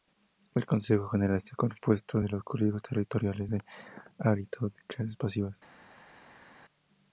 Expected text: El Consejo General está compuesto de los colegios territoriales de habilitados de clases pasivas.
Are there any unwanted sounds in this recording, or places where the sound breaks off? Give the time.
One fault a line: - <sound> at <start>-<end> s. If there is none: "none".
none